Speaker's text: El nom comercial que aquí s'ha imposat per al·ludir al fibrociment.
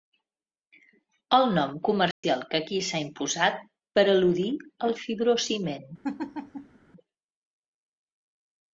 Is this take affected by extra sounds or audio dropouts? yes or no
yes